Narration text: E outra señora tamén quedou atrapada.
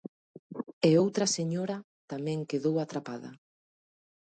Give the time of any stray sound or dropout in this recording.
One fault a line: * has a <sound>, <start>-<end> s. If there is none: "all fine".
all fine